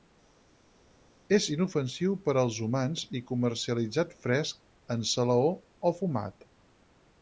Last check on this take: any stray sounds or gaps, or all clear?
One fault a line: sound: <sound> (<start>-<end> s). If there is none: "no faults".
no faults